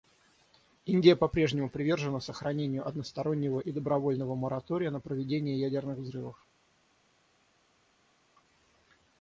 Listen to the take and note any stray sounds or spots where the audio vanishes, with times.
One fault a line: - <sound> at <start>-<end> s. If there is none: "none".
none